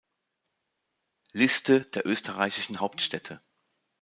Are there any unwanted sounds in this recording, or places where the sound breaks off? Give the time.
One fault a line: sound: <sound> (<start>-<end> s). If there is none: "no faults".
no faults